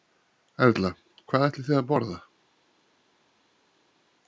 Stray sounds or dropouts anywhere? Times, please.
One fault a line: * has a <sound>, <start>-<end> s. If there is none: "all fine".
all fine